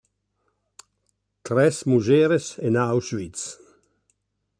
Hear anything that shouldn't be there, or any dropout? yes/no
no